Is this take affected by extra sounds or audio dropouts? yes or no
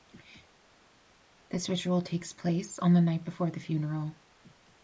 no